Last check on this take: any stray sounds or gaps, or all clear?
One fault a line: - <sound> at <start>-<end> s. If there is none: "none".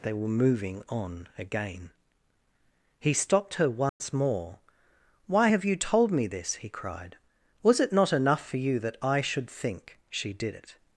- dropout at 3.9-4.0 s